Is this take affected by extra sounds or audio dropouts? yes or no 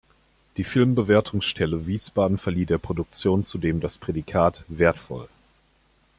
no